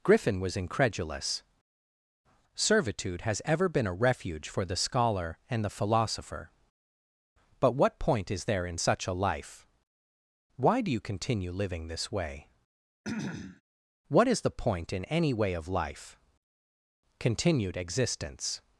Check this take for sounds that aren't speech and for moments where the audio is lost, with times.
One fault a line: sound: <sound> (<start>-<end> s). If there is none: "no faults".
sound: throat clearing (13.0-13.6 s)